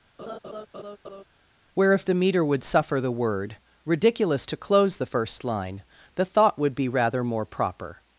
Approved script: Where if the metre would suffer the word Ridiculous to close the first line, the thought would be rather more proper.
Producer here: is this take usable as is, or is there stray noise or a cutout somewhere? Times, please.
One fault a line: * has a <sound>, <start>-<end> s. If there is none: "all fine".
* has a laugh, 0.2-1.2 s